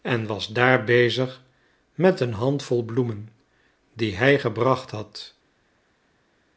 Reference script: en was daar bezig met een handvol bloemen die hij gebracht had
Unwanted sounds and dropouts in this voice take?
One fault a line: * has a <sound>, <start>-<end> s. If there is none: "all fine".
all fine